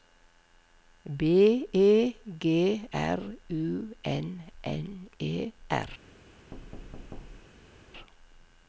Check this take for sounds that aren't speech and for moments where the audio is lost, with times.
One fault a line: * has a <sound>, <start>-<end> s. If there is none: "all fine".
* has a thud, 6.5-7.8 s